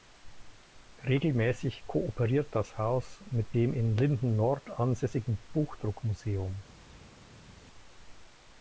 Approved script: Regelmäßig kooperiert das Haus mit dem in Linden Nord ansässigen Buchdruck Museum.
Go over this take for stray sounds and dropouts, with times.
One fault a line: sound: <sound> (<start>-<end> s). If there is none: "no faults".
no faults